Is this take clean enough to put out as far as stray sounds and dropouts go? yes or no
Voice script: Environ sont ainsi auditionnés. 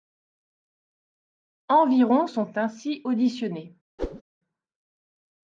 no